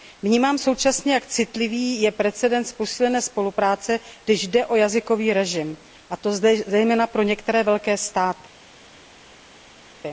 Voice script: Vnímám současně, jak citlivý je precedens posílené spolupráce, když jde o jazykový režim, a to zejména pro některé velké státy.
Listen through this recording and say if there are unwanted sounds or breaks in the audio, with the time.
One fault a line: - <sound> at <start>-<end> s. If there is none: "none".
none